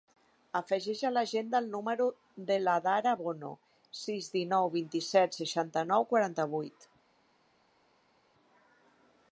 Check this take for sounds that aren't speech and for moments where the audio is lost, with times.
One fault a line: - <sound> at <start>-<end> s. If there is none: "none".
none